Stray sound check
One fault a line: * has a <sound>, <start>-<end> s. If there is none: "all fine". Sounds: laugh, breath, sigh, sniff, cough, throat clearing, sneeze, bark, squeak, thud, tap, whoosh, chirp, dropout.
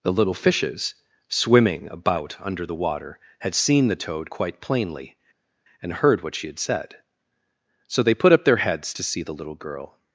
all fine